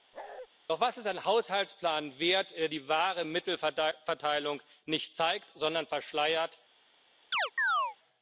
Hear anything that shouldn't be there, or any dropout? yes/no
yes